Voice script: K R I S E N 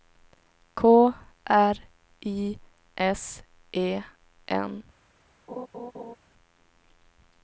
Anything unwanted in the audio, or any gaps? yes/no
yes